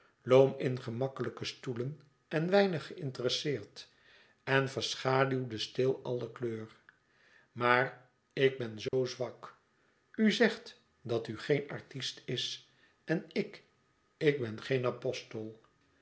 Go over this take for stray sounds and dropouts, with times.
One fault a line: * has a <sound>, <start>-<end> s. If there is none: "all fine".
* has a dropout, 8.9-8.9 s